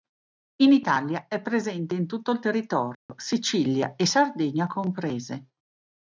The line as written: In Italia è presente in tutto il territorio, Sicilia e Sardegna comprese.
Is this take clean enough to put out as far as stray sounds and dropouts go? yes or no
no